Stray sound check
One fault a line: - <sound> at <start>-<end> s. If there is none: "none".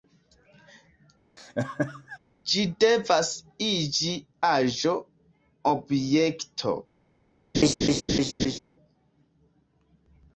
- laugh at 1.4-2.2 s
- laugh at 7.5-8.6 s